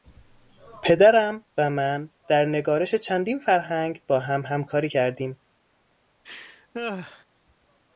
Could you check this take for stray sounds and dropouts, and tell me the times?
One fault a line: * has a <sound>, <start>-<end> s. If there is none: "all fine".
* has a laugh, 6.2-7.3 s